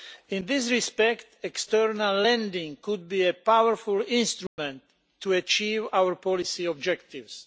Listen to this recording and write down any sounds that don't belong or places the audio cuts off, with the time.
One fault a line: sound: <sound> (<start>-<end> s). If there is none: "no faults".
sound: dropout (4.5-4.6 s)